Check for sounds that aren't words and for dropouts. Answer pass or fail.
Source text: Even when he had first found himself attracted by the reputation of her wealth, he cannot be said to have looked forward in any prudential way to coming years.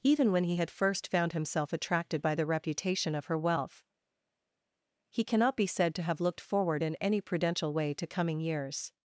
pass